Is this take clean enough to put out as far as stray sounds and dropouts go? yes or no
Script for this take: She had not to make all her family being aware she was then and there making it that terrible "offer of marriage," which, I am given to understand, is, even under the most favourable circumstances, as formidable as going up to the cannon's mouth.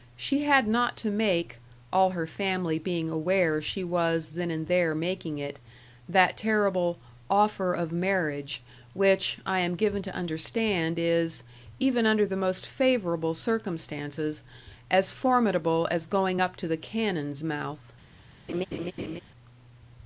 no